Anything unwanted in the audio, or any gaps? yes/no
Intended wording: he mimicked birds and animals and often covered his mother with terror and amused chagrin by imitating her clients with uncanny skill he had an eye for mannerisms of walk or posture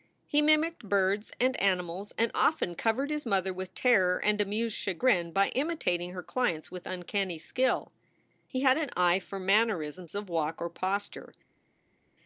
no